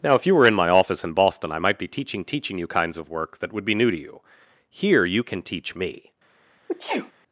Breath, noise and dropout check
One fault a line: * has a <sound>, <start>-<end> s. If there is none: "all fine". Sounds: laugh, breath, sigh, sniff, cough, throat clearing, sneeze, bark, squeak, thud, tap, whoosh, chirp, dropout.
* has a sneeze, 6.7-7.1 s